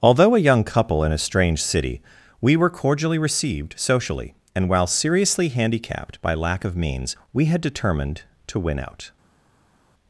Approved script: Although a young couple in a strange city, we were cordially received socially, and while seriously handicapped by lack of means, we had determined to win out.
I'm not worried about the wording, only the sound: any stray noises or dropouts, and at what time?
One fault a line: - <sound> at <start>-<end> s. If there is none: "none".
none